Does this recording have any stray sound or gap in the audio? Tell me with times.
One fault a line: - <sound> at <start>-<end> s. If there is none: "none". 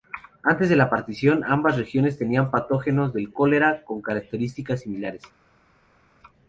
none